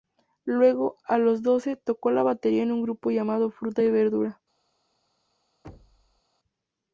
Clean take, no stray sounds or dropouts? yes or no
no